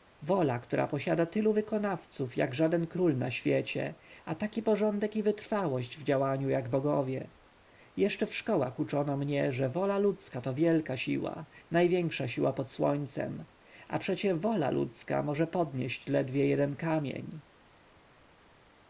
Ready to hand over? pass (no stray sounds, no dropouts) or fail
pass